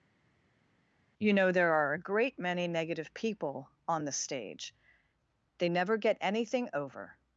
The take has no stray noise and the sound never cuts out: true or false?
true